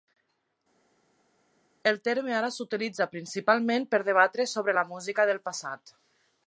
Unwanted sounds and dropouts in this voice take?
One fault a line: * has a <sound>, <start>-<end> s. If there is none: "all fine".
all fine